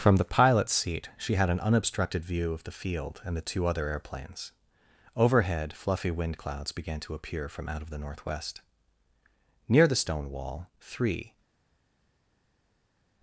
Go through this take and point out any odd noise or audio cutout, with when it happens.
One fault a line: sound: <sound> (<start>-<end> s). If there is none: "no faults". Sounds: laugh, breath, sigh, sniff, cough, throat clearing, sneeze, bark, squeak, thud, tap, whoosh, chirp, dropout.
no faults